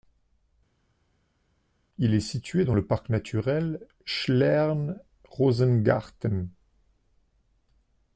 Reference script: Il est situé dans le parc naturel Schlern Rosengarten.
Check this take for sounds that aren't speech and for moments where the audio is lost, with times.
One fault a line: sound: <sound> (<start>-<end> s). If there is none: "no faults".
no faults